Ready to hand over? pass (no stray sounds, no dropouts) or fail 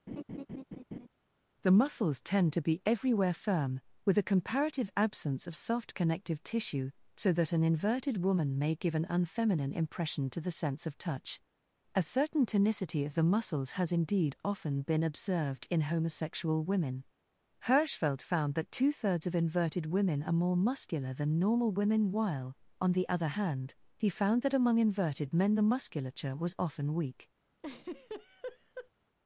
fail